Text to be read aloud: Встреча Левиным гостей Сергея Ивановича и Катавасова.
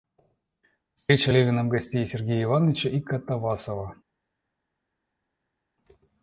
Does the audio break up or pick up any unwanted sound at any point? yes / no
no